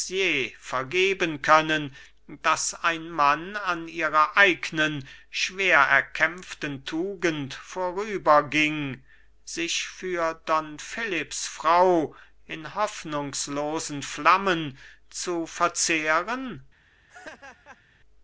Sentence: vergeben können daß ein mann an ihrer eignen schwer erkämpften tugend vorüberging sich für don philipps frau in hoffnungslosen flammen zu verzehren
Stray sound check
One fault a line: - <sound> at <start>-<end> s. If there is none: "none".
- laugh at 17.1-17.8 s